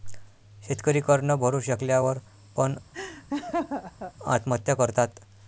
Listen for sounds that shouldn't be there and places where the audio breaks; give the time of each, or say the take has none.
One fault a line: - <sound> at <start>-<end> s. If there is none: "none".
- laugh at 2.9-4.1 s